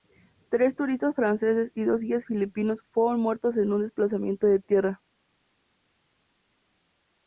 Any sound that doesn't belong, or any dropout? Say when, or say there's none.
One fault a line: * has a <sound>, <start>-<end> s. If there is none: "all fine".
all fine